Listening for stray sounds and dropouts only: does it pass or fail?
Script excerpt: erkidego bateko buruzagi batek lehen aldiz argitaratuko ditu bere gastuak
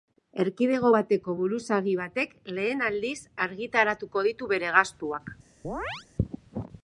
fail